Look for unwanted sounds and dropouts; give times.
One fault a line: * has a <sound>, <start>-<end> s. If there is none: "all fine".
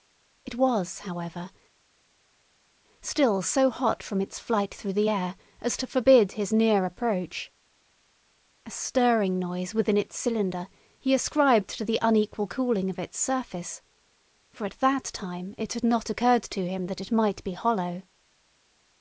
all fine